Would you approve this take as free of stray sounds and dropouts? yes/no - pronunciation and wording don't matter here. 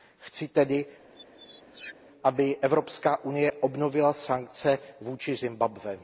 no